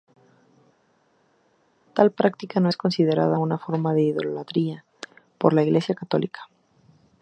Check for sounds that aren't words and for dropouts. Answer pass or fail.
pass